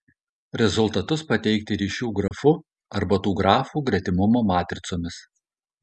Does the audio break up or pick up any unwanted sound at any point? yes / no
yes